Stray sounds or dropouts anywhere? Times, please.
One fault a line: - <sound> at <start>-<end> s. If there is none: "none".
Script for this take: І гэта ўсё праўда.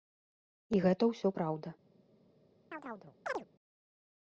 - chirp at 2.7-3.5 s